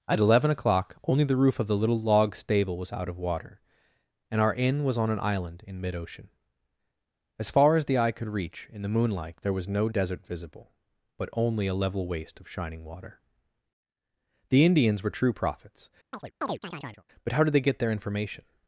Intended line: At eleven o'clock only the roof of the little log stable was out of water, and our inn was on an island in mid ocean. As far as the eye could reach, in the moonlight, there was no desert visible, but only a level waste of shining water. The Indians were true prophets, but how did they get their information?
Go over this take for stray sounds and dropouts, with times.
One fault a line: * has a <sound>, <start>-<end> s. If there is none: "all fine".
* has a chirp, 16.1-17.0 s